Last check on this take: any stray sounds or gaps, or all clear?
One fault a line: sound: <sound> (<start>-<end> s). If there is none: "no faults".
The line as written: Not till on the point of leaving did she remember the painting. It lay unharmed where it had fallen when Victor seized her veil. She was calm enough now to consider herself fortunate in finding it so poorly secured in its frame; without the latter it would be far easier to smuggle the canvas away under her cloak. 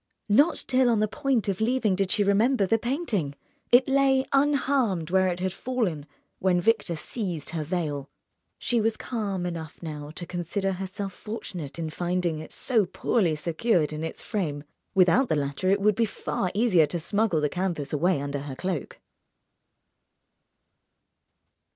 no faults